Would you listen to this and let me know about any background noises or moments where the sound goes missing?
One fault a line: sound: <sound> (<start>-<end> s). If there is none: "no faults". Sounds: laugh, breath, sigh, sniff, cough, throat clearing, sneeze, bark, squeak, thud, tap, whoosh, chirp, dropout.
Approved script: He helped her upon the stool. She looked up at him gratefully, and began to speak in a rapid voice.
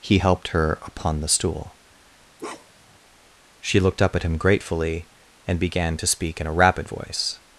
sound: bark (2.4-3.0 s)